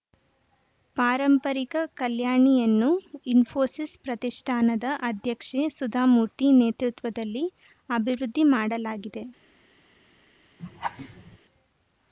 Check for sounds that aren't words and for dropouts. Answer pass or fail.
fail